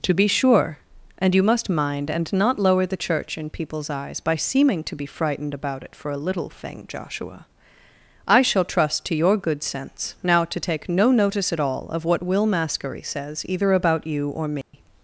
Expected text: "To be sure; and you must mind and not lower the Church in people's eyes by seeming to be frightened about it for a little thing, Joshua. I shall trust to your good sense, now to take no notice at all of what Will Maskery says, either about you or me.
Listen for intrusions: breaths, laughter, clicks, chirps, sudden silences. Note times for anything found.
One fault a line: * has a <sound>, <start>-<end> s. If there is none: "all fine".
* has a dropout, 14.6-14.7 s